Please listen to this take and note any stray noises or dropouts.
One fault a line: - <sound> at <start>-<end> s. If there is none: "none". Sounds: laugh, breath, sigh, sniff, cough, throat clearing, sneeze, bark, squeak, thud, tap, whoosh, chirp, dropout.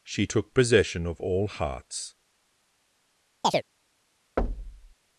- chirp at 3.4-3.6 s
- thud at 4.4-4.9 s